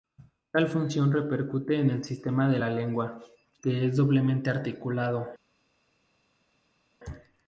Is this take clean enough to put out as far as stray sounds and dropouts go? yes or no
yes